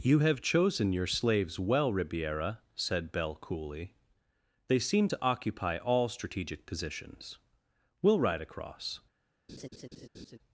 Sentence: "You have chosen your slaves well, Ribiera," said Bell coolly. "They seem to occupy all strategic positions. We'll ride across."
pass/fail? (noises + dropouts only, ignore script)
fail